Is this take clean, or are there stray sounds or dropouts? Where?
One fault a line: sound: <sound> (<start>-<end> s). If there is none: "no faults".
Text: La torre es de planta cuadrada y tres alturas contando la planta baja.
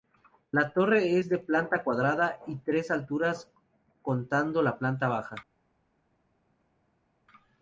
no faults